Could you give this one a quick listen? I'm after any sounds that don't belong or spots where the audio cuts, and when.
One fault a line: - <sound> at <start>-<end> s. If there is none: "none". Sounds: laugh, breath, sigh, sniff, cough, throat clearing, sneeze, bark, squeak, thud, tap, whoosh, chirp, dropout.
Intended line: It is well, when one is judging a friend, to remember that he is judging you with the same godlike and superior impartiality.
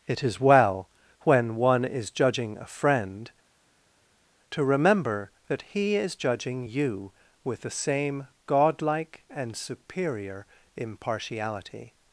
none